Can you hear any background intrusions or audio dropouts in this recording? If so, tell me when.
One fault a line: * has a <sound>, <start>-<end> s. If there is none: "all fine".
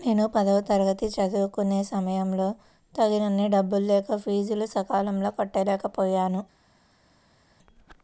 all fine